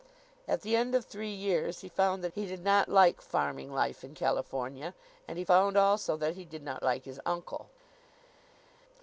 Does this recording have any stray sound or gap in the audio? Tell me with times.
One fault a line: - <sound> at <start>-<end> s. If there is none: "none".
none